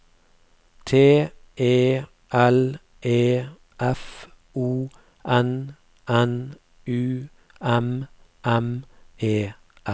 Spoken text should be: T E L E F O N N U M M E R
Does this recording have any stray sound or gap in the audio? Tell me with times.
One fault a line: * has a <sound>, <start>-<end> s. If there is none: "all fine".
all fine